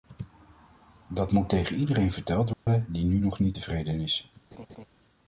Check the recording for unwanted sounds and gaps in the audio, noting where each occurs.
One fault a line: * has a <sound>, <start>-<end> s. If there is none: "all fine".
* has a dropout, 2.5-2.7 s
* has a laugh, 4.5-4.9 s